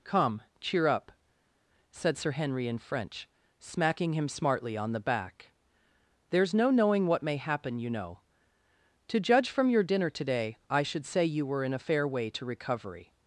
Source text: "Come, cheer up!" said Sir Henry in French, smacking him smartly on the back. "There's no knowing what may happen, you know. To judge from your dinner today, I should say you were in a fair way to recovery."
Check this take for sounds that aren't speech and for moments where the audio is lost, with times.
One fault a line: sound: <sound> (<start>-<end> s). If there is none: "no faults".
no faults